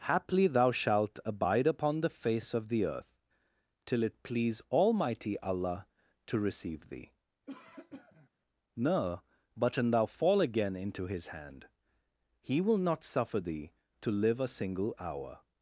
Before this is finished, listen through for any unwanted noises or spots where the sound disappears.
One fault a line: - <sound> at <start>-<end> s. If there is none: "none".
- cough at 7.5-8.3 s